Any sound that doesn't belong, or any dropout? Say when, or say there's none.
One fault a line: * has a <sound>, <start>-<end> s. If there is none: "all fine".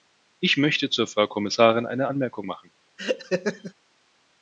* has a laugh, 3.0-3.7 s